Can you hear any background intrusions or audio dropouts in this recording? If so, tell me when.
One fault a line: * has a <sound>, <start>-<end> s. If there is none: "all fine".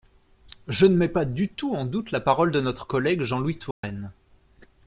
* has a dropout, 3.7-3.8 s